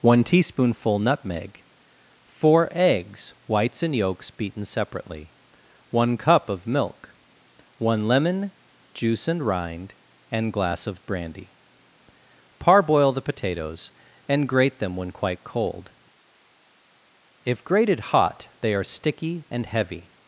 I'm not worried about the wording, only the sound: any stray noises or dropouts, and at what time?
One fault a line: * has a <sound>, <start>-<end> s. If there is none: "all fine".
all fine